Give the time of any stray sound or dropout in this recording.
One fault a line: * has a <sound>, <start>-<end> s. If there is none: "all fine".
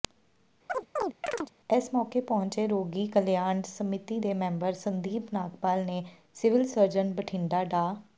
* has a chirp, 0.7-1.5 s